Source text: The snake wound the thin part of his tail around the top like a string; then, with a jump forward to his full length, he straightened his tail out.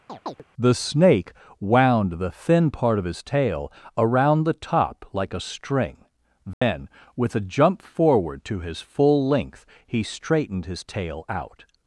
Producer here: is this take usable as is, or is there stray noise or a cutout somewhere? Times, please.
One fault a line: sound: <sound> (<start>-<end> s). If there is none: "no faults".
sound: chirp (0.1-0.4 s)
sound: dropout (6.5-6.6 s)